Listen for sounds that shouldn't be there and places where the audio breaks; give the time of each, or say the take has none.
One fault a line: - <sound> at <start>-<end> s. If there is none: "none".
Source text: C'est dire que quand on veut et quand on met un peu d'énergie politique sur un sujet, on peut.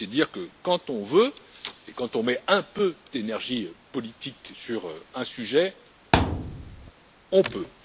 - thud at 6.1-6.9 s